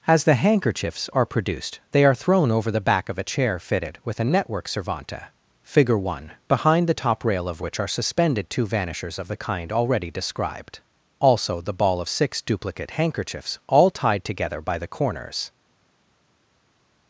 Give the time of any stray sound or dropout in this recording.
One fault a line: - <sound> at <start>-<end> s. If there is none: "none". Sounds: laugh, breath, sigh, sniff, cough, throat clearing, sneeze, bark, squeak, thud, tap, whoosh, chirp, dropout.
none